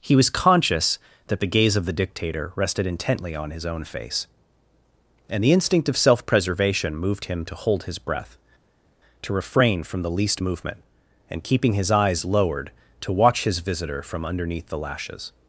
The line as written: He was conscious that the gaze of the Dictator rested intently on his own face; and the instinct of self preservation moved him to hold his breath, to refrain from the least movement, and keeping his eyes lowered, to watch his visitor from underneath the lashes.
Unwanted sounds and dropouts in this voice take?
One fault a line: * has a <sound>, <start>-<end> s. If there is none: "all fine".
all fine